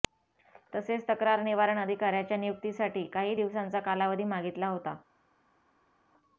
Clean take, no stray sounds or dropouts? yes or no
yes